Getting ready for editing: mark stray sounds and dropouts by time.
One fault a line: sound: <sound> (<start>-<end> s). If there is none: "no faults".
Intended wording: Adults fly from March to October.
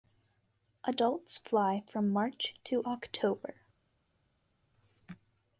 no faults